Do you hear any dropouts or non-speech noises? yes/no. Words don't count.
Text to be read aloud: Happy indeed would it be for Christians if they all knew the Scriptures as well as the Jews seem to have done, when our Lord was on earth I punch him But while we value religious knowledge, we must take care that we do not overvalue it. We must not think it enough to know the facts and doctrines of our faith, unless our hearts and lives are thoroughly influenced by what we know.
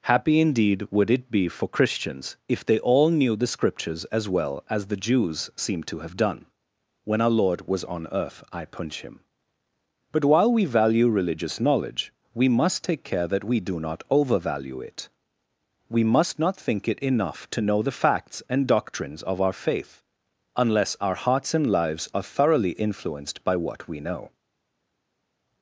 no